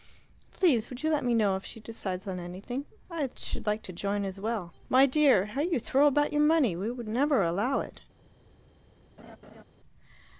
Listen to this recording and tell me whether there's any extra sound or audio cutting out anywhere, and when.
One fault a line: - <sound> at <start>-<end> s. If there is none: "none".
- laugh at 9.2-9.6 s